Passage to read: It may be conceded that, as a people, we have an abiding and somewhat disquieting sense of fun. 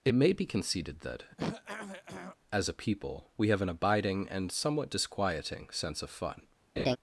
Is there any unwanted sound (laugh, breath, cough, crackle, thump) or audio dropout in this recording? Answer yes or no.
yes